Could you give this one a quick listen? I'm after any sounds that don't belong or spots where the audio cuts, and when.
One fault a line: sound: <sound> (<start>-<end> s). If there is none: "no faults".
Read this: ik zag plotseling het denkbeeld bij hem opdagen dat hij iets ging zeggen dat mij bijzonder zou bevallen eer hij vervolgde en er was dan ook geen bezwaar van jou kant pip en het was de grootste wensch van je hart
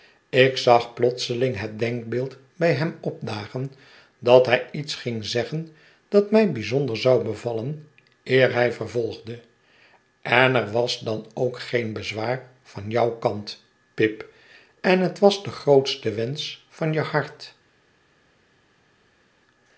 no faults